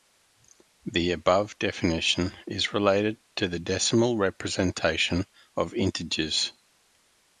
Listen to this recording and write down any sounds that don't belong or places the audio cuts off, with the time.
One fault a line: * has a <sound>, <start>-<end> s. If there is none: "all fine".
all fine